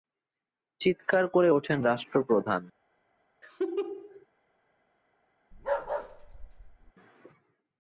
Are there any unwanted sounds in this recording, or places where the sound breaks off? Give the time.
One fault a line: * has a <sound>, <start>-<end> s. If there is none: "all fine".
* has a laugh, 3.4-4.3 s
* has a bark, 5.5-6.9 s